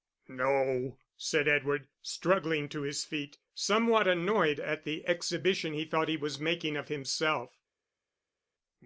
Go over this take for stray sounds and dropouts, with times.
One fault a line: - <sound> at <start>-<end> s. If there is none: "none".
none